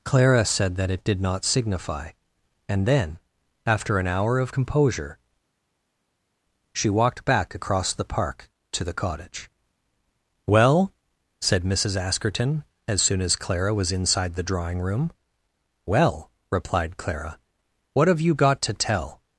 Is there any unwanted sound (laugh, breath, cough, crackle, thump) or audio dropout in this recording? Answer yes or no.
no